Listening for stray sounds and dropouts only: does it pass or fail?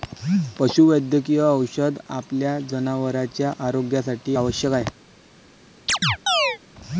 fail